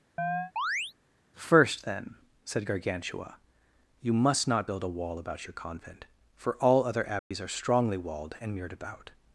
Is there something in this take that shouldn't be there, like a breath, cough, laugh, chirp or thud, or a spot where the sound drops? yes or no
yes